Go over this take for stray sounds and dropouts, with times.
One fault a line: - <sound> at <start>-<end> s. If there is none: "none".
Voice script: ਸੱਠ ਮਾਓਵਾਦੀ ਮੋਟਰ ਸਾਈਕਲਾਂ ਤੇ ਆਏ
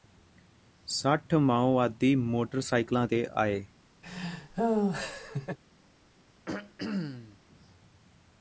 - laugh at 4.0-5.6 s
- throat clearing at 6.5-7.4 s